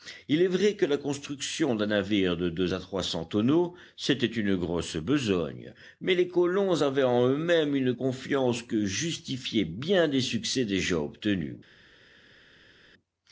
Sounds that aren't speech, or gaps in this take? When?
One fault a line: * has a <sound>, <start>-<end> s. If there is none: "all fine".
all fine